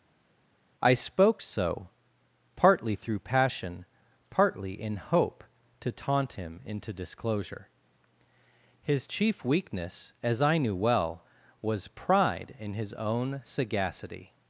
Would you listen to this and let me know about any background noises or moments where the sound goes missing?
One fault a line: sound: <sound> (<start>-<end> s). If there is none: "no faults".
no faults